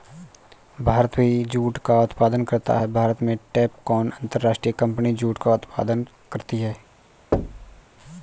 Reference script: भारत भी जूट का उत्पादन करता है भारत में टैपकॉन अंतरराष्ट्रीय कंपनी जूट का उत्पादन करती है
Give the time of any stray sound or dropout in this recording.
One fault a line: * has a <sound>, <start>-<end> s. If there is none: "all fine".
* has a thud, 7.3-7.8 s